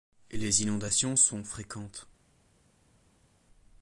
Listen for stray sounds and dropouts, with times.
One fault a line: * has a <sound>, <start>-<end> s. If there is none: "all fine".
all fine